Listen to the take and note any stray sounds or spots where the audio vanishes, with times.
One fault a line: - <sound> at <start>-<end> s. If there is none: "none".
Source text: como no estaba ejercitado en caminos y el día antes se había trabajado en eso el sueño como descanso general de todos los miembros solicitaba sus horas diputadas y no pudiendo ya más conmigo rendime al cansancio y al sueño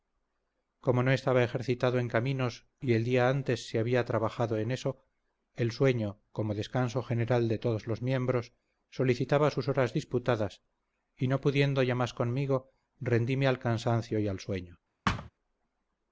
- thud at 15.1-15.3 s